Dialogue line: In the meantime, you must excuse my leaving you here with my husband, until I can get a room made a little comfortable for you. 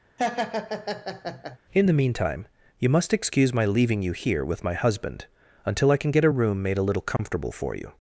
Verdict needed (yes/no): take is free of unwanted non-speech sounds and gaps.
no